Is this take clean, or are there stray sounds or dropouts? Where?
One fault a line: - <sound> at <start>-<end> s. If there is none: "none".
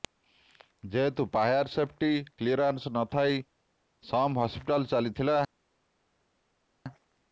none